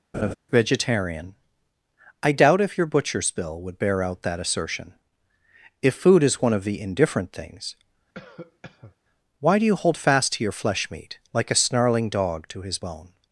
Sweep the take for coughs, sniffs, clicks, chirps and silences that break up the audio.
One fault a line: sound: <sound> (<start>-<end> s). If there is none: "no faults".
sound: laugh (0.1-0.4 s)
sound: cough (8.1-9.0 s)